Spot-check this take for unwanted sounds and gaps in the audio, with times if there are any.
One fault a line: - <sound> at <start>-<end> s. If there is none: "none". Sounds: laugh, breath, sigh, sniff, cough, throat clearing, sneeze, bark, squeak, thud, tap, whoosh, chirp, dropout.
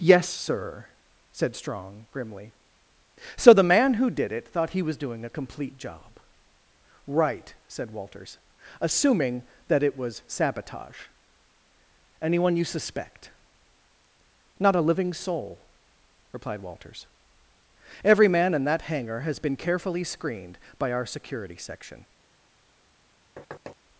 - thud at 23.4-23.8 s